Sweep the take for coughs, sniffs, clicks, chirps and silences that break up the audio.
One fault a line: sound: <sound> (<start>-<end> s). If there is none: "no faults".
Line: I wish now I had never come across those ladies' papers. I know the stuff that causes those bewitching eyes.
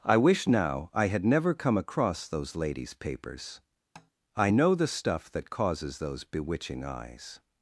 sound: tap (4.0-4.1 s)